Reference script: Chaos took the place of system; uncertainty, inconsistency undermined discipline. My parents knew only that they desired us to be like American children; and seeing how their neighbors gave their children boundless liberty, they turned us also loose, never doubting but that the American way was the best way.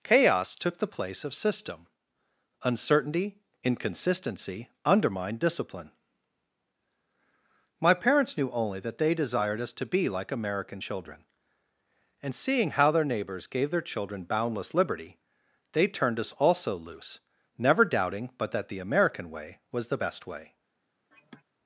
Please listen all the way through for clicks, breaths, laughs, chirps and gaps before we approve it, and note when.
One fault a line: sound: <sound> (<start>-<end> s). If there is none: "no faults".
sound: sigh (21.1-21.4 s)